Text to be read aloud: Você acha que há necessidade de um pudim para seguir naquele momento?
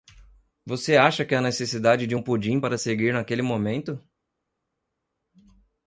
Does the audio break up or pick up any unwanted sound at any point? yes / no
no